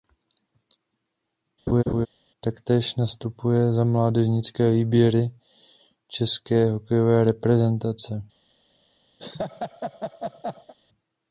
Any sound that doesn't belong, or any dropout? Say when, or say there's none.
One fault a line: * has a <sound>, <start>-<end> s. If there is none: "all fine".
* has a laugh, 1.7-2.1 s
* has a laugh, 9.2-10.7 s